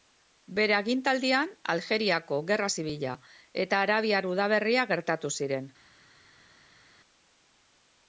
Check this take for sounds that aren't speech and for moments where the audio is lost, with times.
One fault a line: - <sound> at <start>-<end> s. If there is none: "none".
none